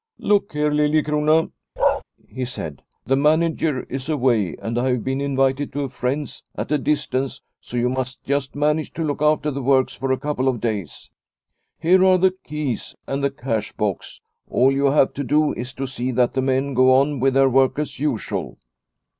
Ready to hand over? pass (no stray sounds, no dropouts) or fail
fail